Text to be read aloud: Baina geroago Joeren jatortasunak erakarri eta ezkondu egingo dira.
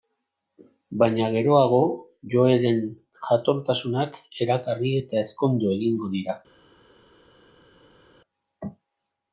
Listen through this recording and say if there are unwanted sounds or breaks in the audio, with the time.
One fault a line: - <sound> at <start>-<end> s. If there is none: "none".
none